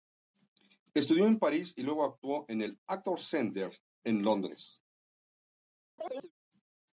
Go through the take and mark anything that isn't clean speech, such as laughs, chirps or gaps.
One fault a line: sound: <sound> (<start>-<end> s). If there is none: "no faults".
sound: chirp (6.0-6.3 s)